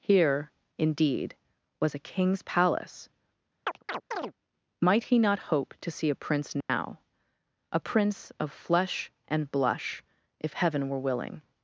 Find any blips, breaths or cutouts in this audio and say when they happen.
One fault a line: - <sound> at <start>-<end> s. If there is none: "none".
- chirp at 3.7-4.3 s
- dropout at 6.6-6.7 s